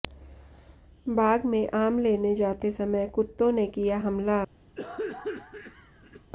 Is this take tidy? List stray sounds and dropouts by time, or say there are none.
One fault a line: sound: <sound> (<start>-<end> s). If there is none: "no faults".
sound: cough (4.8-6.3 s)